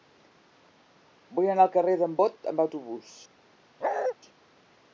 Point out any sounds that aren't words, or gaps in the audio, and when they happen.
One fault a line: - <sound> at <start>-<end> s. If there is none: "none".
- bark at 3.8-4.1 s